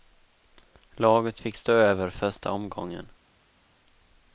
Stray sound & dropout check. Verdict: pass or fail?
pass